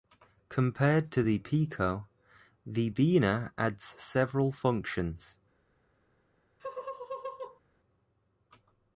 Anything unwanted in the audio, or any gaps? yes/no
yes